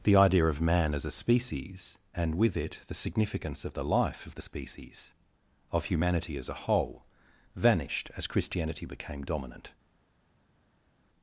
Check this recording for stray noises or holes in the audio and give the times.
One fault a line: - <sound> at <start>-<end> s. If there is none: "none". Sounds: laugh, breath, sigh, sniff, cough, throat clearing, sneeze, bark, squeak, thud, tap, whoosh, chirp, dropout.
none